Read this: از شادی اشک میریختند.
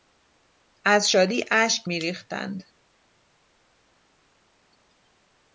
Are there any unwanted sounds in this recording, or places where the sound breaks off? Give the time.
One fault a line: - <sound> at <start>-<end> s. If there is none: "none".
none